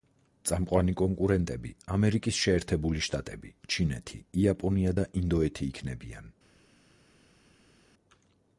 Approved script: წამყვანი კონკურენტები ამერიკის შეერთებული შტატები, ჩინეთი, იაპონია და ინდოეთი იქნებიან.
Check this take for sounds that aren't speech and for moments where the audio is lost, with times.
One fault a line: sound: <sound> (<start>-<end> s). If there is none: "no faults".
no faults